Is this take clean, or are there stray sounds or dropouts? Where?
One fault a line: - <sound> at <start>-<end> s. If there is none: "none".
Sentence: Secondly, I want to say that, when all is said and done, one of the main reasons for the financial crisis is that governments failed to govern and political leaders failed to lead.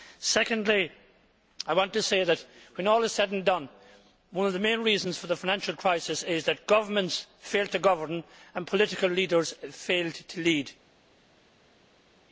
none